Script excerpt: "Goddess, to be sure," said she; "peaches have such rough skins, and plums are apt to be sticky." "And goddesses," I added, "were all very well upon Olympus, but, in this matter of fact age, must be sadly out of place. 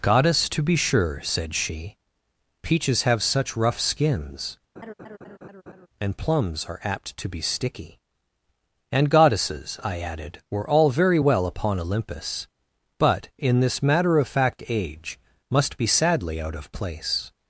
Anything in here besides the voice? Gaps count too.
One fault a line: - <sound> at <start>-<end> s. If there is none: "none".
- laugh at 4.8-5.9 s